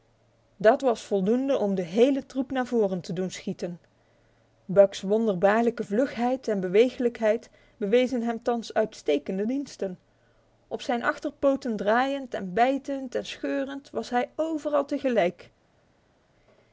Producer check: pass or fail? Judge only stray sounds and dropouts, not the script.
pass